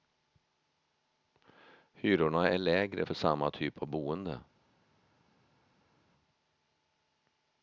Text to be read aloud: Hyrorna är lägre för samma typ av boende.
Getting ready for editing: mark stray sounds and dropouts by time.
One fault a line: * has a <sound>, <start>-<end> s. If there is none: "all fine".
all fine